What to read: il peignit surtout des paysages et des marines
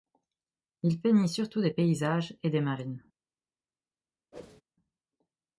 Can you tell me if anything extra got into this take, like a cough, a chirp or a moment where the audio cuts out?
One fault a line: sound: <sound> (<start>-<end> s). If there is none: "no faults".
sound: whoosh (4.3-4.6 s)